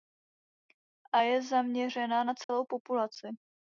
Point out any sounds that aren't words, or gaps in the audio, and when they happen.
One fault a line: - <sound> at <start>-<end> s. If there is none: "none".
- dropout at 2.4-2.5 s